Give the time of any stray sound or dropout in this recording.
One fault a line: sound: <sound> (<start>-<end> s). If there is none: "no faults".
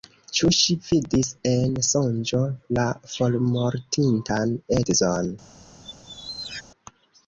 sound: squeak (5.8-6.6 s)